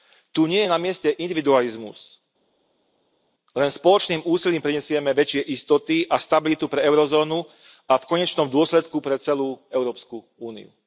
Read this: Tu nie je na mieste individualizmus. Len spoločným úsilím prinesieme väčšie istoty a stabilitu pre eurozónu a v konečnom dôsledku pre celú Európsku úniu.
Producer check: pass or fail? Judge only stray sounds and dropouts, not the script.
pass